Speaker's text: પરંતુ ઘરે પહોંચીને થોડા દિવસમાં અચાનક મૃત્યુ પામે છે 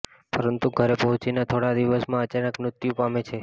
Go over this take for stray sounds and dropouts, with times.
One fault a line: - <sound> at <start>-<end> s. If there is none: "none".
none